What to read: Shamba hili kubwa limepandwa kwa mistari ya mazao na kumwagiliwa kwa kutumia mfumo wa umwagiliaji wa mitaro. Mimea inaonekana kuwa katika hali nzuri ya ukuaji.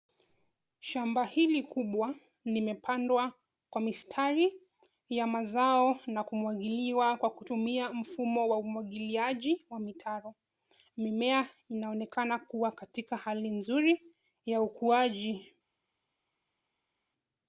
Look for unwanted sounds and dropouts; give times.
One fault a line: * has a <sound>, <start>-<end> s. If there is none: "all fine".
all fine